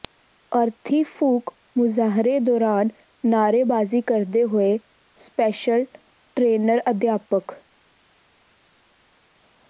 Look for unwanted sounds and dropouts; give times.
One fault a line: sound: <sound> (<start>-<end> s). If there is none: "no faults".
no faults